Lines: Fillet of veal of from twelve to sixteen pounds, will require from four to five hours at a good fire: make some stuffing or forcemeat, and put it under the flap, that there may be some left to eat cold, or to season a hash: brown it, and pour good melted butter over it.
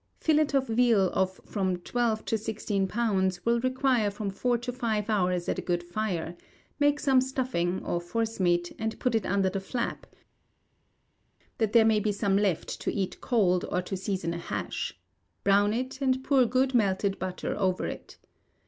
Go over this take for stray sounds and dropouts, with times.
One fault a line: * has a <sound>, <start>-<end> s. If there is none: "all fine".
all fine